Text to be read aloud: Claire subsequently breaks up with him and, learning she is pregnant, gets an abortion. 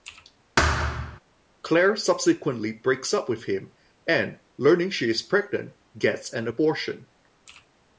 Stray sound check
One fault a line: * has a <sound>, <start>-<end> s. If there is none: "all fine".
* has a thud, 0.6-1.2 s